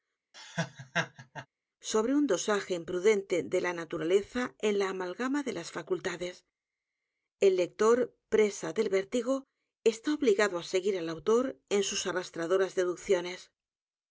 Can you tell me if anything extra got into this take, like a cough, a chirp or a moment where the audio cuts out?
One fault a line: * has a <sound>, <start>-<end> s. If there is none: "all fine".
* has a laugh, 0.3-1.5 s